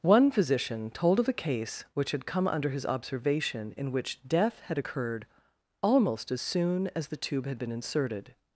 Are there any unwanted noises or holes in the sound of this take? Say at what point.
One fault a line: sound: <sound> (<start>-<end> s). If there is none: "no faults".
no faults